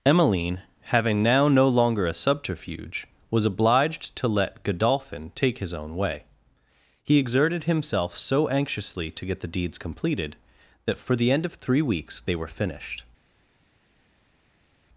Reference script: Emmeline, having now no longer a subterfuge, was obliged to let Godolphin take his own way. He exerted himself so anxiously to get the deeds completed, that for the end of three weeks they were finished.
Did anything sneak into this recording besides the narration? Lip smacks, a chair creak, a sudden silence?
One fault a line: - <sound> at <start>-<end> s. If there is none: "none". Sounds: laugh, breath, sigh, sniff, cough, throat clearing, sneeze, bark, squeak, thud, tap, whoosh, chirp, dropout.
none